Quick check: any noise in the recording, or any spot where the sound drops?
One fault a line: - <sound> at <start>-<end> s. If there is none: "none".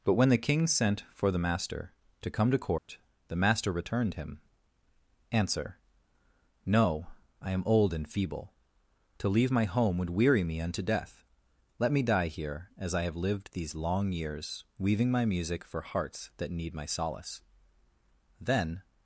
- dropout at 2.8-2.9 s